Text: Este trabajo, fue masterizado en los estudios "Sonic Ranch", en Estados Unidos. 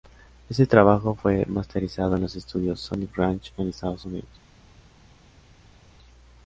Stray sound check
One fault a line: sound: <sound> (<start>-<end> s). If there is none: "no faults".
no faults